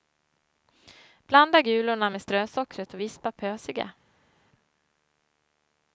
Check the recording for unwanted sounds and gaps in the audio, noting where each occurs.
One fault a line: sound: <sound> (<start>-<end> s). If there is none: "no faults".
no faults